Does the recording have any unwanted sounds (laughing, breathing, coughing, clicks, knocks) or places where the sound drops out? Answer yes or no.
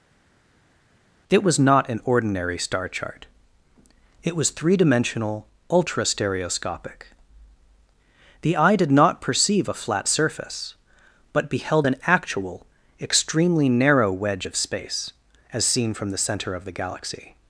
no